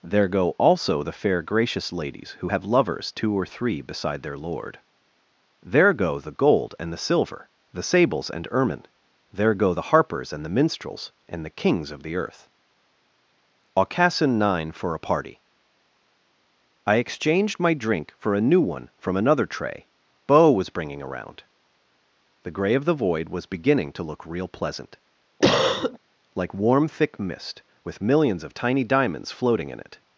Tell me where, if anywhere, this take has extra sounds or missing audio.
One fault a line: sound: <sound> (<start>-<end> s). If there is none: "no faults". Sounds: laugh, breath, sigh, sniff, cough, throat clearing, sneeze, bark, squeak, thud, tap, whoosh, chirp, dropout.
sound: cough (25.4-26.0 s)